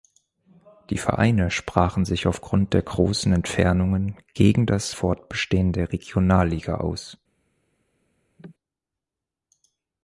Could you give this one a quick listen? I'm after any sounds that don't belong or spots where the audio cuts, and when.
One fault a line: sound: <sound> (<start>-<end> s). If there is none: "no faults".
sound: cough (8.4-8.5 s)